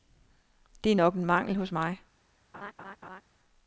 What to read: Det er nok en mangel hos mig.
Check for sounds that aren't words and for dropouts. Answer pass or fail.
fail